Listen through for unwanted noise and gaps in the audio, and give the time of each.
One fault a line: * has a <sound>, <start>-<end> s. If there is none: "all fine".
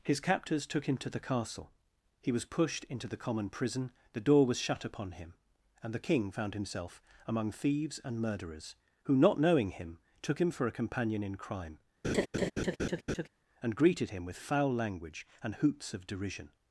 * has a laugh, 12.0-13.3 s